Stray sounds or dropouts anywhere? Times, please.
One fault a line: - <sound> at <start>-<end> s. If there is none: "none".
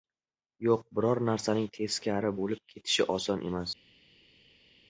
none